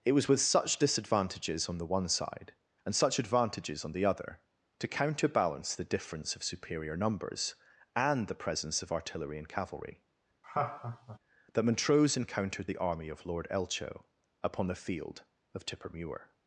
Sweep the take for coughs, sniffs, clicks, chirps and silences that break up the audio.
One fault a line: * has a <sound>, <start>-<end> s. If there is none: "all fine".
* has a laugh, 10.4-11.2 s